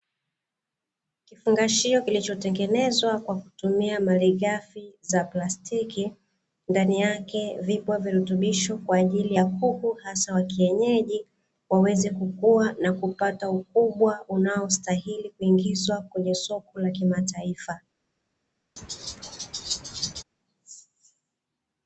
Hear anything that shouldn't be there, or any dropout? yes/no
yes